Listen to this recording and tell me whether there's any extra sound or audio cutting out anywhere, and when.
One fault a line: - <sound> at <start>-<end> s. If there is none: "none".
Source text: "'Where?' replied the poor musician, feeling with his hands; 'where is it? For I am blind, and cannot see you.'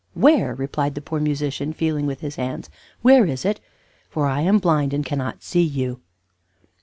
none